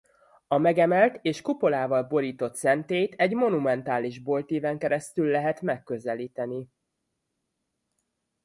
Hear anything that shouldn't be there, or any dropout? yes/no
no